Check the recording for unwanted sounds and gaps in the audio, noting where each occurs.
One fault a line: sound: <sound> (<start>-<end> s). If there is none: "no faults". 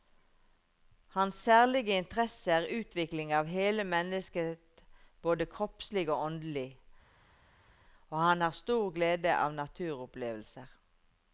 no faults